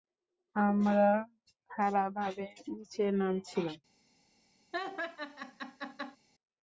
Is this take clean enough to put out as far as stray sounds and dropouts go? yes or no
no